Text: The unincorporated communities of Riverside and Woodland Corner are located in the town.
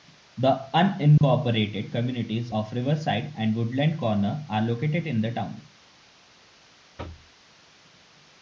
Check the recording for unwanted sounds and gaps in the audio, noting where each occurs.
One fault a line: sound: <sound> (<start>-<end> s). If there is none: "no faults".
sound: dropout (1.2-1.2 s)
sound: thud (7.0-7.3 s)